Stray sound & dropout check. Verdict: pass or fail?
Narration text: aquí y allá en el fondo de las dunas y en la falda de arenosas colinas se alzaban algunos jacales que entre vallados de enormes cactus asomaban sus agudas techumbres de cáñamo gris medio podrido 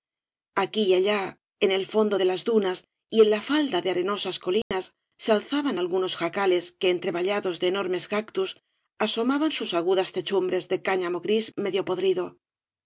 fail